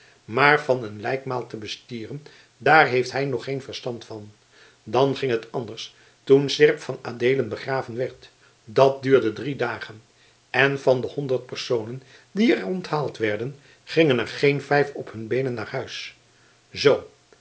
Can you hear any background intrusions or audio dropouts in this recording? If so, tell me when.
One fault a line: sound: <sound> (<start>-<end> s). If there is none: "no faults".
no faults